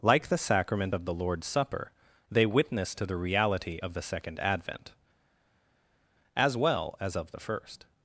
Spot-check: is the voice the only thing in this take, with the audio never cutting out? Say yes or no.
yes